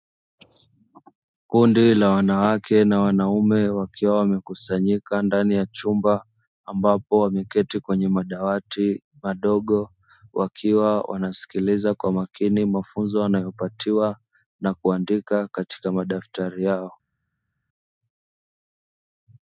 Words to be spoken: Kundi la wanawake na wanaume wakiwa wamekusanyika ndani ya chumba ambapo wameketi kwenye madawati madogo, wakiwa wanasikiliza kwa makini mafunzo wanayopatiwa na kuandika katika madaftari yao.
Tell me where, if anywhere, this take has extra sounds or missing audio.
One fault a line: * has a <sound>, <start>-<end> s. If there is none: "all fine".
all fine